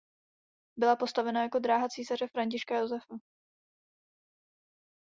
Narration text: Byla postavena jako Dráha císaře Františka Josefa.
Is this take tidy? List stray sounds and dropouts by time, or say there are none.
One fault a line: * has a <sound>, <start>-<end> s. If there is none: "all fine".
all fine